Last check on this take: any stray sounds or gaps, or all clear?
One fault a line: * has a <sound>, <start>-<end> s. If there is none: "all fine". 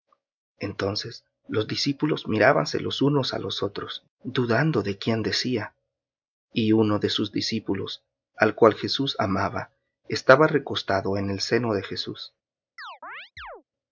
* has a chirp, 12.8-13.6 s